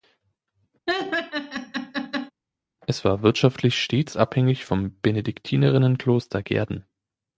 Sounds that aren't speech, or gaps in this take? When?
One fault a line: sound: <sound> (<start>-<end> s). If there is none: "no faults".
sound: laugh (0.9-2.3 s)